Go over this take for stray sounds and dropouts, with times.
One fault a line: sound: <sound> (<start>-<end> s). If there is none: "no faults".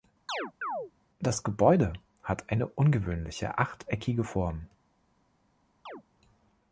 sound: chirp (0.3-0.9 s)
sound: chirp (5.9-6.0 s)